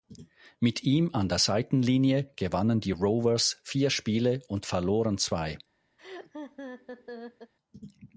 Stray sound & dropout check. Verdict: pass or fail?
fail